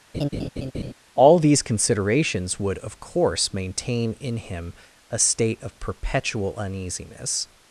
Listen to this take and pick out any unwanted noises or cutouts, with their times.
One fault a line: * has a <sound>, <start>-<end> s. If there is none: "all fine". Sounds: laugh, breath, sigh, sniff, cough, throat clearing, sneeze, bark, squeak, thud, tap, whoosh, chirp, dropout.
* has a laugh, 0.1-0.9 s